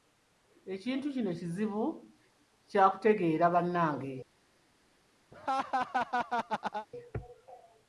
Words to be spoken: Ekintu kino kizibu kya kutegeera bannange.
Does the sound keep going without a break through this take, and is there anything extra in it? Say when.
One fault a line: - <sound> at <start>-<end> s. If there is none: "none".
- laugh at 5.3-6.9 s